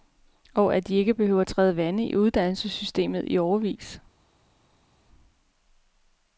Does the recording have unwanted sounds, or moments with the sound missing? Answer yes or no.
no